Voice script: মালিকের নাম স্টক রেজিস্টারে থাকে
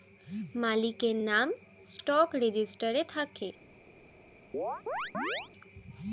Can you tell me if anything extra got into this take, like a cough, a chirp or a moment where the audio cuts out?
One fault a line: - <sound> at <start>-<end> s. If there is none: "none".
- chirp at 4.5-5.5 s